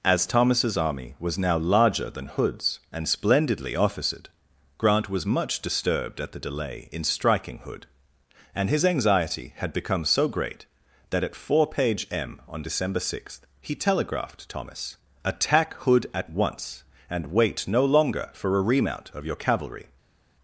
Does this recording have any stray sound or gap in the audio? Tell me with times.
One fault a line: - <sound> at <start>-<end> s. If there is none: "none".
none